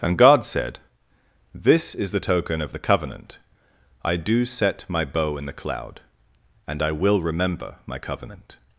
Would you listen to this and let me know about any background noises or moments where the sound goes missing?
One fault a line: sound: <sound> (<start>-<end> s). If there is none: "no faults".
no faults